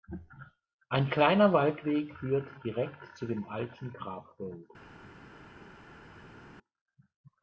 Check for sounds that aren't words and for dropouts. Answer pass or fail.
pass